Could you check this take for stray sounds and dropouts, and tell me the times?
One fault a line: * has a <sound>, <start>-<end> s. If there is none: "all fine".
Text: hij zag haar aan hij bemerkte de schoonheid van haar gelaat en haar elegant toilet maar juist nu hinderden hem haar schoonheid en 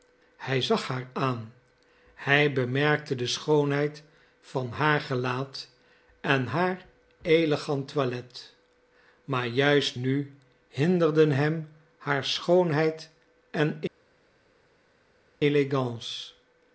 all fine